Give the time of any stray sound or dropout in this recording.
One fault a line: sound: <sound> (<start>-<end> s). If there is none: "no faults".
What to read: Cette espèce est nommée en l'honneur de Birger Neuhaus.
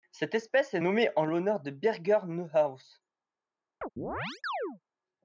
sound: chirp (3.8-4.8 s)